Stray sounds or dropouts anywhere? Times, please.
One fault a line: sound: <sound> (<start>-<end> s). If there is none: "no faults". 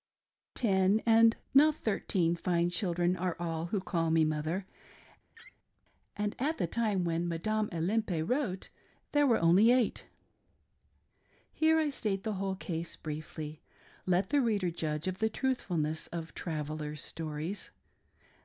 sound: laugh (5.3-5.6 s)